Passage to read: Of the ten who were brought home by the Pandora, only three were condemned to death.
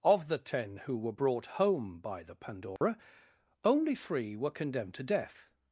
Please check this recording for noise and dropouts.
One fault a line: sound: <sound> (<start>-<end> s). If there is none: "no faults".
sound: dropout (2.8-2.8 s)